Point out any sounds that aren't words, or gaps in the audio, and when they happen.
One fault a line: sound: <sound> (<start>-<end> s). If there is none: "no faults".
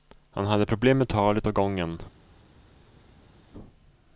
no faults